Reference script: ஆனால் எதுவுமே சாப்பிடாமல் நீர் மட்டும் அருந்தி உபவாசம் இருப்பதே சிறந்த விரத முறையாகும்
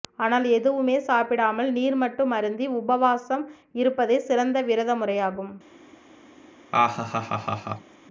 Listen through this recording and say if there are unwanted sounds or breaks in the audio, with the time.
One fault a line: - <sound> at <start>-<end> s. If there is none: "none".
- laugh at 6.7-7.9 s